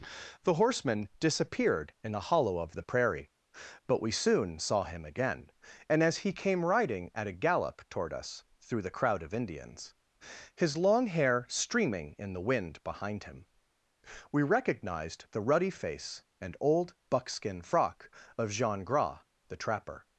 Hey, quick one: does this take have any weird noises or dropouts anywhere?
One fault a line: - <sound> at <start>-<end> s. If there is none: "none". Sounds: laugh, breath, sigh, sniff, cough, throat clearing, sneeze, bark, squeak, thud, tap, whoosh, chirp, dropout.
none